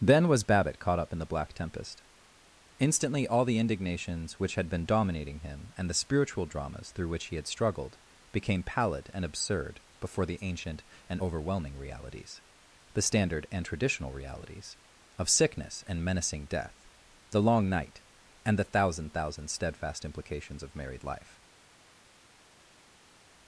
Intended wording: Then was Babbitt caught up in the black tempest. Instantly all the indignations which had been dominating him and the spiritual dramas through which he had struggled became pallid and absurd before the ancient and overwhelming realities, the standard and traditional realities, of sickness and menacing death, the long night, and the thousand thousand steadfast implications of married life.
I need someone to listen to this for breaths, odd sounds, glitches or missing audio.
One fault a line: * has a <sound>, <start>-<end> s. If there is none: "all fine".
all fine